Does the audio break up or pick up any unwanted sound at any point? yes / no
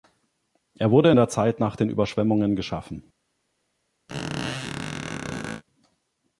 yes